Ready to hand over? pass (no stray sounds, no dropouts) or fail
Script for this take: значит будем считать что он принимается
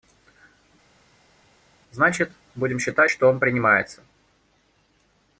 pass